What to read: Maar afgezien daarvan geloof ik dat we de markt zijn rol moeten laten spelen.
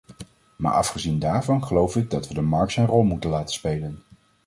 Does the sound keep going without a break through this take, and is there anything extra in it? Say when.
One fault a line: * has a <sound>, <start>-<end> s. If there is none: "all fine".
all fine